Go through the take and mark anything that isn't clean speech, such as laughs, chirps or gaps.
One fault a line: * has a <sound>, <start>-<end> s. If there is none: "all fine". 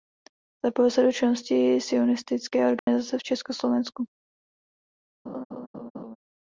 * has a dropout, 2.8-2.9 s
* has a laugh, 5.3-6.2 s